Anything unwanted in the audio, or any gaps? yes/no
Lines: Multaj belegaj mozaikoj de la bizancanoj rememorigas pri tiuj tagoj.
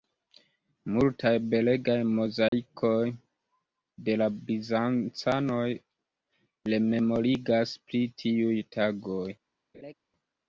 yes